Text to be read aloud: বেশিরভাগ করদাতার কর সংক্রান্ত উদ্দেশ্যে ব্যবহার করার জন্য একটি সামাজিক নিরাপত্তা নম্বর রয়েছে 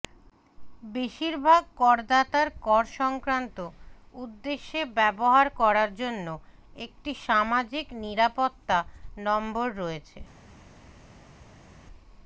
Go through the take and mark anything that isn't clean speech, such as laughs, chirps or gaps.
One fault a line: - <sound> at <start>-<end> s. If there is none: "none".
none